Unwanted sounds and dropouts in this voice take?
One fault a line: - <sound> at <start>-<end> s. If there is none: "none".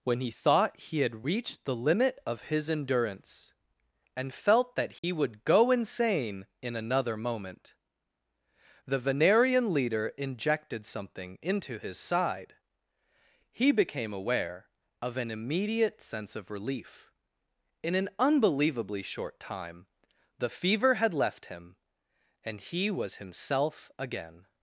- dropout at 5.0-5.0 s